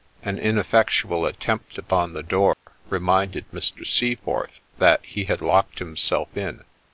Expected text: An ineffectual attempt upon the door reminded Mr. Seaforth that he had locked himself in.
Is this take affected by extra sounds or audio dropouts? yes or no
yes